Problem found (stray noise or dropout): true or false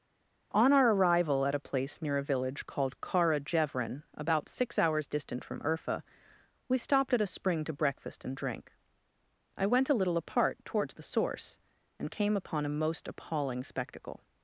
false